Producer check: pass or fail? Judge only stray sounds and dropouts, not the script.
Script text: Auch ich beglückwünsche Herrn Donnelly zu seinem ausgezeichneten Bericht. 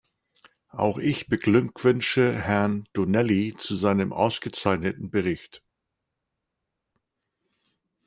pass